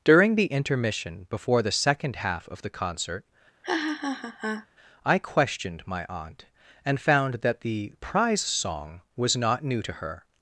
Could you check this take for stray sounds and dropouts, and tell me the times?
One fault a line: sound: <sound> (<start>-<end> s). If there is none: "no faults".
sound: laugh (3.6-4.7 s)